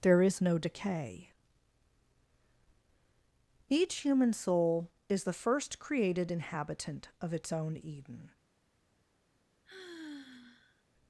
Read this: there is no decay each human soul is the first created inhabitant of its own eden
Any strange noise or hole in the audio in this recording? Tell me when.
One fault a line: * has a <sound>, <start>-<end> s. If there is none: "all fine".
* has a sigh, 9.6-10.8 s